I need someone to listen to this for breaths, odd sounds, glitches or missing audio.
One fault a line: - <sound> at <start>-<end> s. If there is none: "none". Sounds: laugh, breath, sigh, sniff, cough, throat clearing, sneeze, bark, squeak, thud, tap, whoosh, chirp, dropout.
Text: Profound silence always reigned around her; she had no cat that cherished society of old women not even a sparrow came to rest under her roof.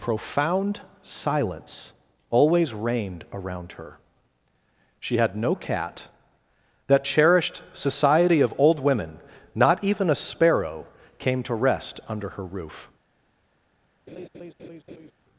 - laugh at 14.1-15.1 s